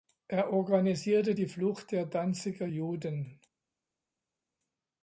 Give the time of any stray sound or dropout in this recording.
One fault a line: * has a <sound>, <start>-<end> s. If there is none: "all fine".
all fine